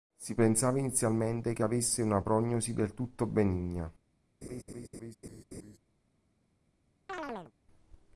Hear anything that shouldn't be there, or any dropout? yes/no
yes